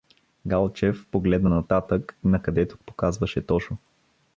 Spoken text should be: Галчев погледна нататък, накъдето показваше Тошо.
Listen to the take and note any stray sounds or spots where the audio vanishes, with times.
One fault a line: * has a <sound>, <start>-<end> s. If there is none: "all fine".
all fine